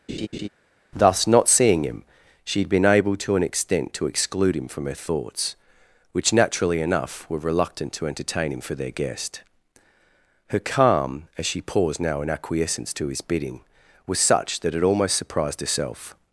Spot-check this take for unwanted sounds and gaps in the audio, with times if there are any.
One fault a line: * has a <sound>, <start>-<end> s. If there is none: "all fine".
* has a laugh, 0.1-0.5 s